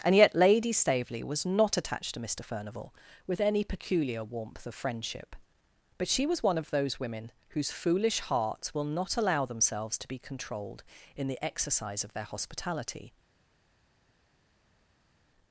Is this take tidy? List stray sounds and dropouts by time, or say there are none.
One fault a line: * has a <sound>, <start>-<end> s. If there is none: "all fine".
all fine